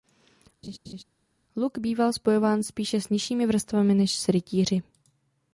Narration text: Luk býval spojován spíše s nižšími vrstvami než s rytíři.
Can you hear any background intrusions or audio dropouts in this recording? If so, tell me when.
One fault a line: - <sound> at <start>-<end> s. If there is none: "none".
- laugh at 0.6-1.0 s